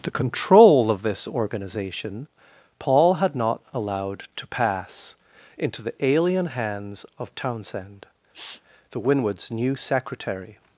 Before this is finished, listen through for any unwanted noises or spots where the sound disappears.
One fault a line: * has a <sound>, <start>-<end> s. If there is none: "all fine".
* has a sniff, 8.3-8.6 s